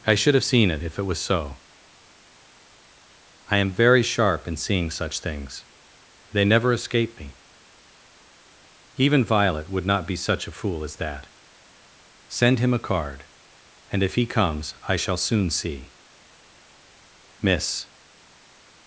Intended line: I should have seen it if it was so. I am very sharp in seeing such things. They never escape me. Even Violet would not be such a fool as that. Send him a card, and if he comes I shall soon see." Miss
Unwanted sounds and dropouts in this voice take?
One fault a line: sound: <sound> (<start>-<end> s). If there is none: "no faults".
no faults